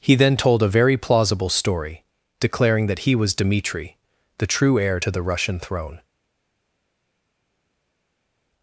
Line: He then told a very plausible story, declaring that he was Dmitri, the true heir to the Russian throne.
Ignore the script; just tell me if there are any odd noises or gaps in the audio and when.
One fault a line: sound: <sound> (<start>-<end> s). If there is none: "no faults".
no faults